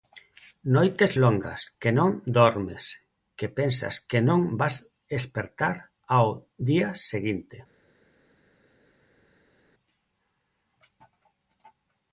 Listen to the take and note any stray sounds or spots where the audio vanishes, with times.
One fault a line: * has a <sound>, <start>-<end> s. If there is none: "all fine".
all fine